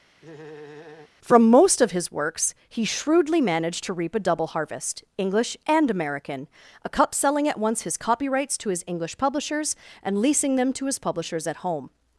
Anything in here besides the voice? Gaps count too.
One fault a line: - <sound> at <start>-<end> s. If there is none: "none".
- laugh at 0.2-1.1 s